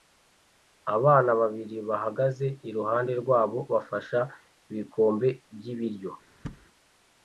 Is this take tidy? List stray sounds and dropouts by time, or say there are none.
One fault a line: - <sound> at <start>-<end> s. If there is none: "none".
- thud at 6.4-6.7 s